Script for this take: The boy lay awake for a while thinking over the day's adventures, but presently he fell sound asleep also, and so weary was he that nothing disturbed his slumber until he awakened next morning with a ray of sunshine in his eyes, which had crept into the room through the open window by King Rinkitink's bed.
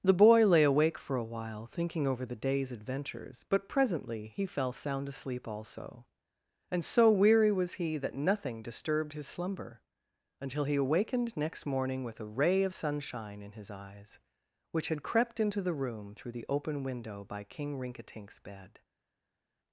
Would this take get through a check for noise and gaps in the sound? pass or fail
pass